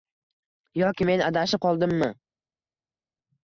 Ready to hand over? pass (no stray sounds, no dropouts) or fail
pass